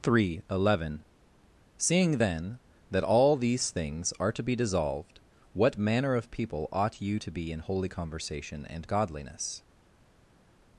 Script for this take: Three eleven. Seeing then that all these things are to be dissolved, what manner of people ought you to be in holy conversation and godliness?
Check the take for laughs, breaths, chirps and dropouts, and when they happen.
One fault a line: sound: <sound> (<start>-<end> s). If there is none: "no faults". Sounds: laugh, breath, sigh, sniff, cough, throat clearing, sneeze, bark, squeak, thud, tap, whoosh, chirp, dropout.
no faults